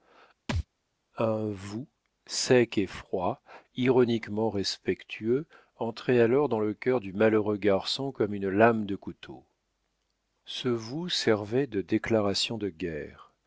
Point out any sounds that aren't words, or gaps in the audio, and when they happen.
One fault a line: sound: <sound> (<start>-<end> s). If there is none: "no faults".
sound: thud (0.5-0.7 s)